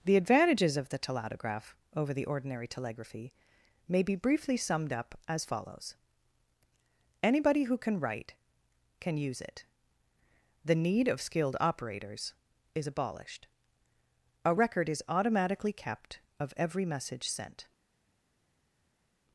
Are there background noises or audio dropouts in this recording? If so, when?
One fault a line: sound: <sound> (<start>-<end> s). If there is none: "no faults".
no faults